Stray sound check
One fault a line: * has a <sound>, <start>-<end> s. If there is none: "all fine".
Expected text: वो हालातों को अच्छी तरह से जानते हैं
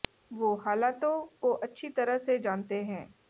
all fine